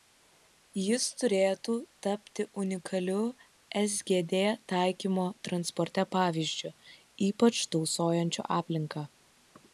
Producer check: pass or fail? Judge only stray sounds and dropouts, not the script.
pass